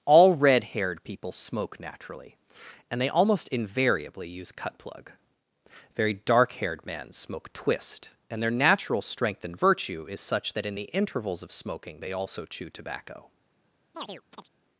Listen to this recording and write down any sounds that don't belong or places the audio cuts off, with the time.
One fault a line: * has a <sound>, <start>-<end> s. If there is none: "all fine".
* has a chirp, 13.9-14.5 s